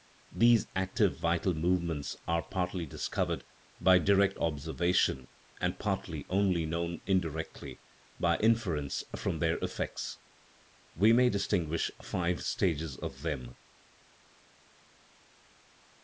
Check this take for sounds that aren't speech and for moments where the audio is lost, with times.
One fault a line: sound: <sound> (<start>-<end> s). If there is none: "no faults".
no faults